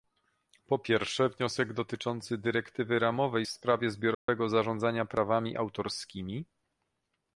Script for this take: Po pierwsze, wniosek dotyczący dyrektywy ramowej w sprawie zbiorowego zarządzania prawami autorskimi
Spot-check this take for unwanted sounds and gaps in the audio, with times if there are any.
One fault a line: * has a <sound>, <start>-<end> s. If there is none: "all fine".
* has a dropout, 4.1-4.3 s